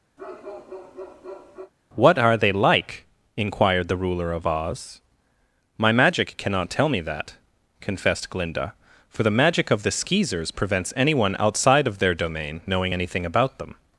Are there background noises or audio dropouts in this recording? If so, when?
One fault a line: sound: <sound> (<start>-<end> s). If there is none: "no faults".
sound: bark (0.2-1.7 s)